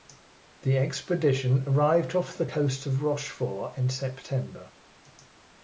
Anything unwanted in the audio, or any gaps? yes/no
no